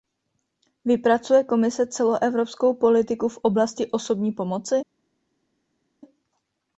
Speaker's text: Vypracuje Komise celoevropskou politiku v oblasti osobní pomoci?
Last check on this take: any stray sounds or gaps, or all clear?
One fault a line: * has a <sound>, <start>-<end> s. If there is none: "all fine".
all fine